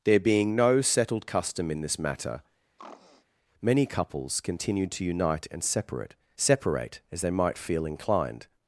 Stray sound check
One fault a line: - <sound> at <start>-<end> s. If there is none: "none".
- throat clearing at 2.8-3.3 s